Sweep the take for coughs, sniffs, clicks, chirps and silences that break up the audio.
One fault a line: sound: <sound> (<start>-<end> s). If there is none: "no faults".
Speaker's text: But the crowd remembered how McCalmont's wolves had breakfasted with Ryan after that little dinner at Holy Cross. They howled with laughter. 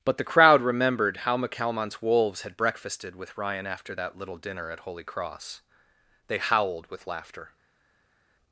no faults